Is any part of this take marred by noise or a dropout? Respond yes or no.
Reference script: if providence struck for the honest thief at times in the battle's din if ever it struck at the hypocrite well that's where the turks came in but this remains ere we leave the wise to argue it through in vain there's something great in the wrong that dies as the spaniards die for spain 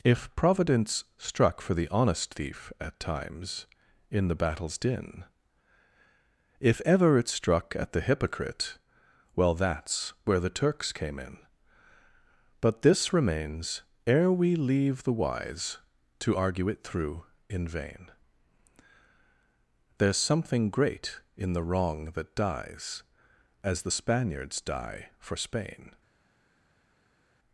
no